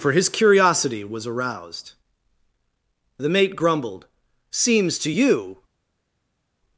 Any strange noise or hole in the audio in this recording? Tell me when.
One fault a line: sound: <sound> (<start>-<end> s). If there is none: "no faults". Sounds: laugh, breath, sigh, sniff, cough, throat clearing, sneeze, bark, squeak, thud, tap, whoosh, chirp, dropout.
no faults